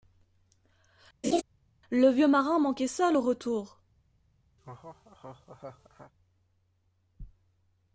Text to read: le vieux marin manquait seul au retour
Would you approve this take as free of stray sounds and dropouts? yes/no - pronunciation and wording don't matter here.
no